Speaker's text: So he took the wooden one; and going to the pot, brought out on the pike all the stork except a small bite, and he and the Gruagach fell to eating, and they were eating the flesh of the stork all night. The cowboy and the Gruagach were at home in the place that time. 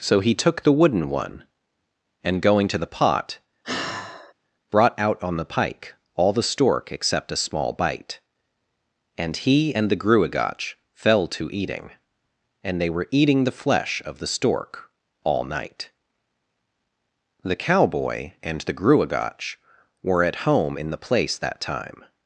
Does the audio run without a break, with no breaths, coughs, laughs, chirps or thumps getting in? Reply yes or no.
no